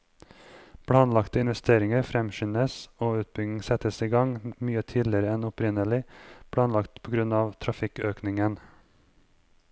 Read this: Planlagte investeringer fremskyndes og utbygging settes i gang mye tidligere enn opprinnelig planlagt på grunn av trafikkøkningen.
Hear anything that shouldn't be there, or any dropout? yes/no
no